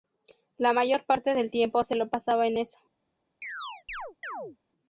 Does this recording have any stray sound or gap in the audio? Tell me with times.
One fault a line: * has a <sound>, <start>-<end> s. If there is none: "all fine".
* has a chirp, 3.4-4.6 s